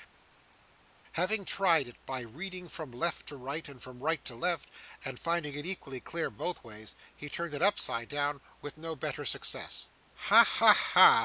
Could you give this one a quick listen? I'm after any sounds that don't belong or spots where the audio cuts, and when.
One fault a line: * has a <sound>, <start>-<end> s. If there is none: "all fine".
all fine